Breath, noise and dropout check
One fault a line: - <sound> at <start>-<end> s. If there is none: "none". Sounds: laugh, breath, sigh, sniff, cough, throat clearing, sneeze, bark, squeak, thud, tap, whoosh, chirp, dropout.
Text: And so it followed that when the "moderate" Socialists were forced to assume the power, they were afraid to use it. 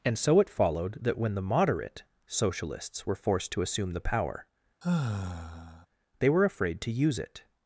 - sigh at 4.8-5.9 s